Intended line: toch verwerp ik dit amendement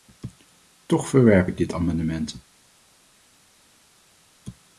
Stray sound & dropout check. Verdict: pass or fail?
pass